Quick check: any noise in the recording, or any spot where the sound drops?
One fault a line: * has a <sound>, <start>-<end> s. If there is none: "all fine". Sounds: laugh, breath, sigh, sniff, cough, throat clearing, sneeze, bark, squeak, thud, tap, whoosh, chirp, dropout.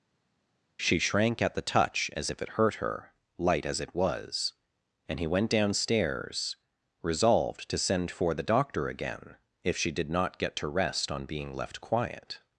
all fine